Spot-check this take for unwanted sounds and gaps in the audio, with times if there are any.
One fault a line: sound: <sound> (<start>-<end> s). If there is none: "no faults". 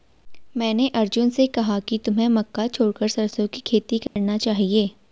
sound: dropout (4.1-4.2 s)